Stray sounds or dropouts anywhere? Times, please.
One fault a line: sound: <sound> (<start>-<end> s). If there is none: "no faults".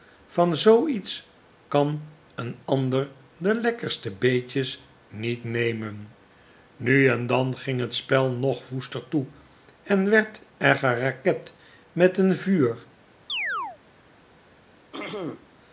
sound: chirp (13.3-13.8 s)
sound: throat clearing (14.9-15.6 s)